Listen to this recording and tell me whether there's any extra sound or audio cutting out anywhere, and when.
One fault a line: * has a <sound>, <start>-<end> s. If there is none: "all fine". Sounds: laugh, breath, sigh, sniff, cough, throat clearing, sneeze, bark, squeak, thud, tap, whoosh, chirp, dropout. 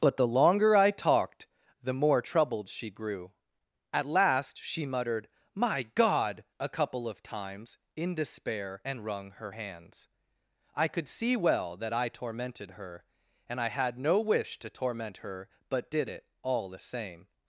all fine